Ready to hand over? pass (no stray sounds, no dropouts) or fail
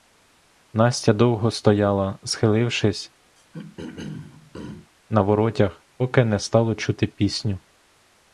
fail